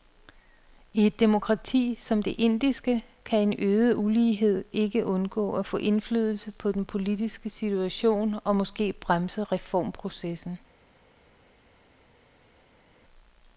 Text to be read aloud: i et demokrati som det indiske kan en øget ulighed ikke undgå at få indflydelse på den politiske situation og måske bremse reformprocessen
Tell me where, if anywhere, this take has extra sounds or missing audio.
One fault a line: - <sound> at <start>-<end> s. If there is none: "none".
none